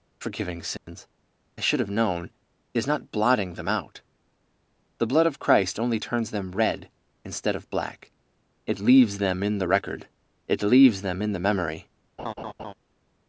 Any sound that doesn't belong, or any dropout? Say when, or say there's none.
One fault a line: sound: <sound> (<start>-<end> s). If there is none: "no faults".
sound: dropout (0.8-0.9 s)
sound: laugh (12.2-12.7 s)